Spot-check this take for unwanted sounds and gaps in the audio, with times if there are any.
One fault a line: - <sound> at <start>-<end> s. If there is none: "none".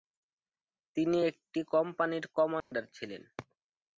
- dropout at 2.6-2.7 s